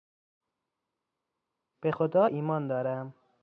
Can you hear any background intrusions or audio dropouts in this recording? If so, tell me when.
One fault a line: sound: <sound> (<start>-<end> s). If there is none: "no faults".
no faults